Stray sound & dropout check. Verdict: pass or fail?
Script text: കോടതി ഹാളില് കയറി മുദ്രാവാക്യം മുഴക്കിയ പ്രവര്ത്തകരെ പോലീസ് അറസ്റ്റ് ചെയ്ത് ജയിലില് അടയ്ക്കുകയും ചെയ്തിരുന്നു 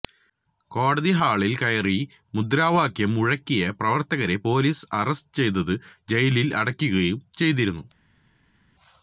pass